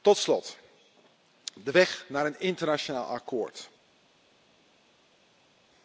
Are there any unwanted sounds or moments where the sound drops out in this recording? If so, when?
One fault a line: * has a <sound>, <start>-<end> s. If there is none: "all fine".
all fine